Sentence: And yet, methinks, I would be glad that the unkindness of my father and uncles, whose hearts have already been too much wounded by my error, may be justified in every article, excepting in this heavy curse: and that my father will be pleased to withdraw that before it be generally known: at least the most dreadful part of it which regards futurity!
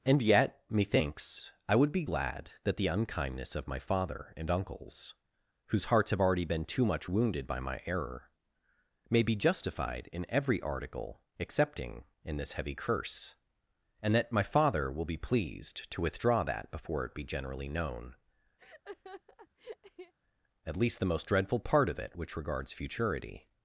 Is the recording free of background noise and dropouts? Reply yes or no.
no